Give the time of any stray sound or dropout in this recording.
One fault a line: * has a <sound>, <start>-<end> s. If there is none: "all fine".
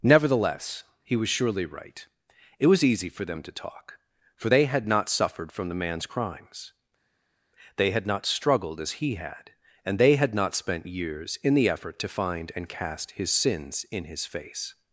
all fine